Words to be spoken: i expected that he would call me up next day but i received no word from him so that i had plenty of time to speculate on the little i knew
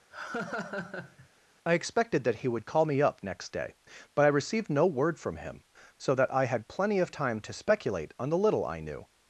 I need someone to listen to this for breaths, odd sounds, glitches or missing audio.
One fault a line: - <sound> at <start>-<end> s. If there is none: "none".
- laugh at 0.1-1.3 s